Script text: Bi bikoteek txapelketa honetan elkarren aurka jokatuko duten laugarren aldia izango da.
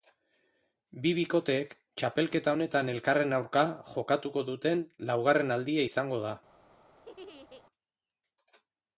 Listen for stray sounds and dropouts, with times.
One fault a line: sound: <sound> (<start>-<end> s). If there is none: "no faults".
sound: laugh (7.0-7.6 s)